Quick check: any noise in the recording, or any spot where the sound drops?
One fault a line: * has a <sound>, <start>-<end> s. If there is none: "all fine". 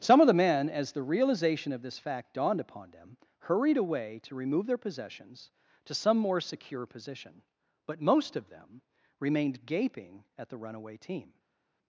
all fine